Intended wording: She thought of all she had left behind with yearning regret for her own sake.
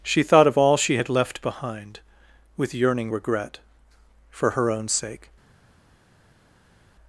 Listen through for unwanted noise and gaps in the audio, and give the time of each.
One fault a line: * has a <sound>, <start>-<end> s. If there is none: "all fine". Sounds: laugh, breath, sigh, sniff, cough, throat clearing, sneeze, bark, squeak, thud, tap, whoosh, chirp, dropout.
all fine